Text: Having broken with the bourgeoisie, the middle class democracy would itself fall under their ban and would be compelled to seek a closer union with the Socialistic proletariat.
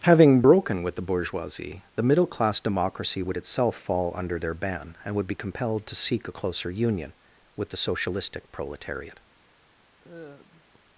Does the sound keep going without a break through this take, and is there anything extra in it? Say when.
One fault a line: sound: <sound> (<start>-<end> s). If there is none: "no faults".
sound: sigh (10.0-10.8 s)